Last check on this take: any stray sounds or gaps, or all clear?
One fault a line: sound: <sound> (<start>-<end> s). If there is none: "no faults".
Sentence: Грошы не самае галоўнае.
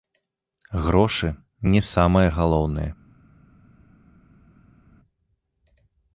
no faults